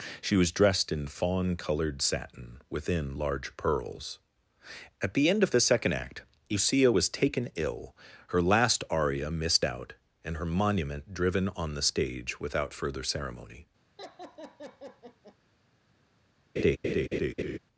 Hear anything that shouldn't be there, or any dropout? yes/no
yes